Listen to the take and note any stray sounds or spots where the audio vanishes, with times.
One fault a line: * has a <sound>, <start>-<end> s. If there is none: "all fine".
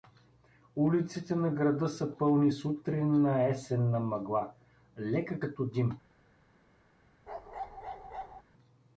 * has a bark, 7.3-8.4 s